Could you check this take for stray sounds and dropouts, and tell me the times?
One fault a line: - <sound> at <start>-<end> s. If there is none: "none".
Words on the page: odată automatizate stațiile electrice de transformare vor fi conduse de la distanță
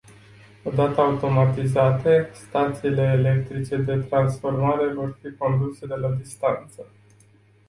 none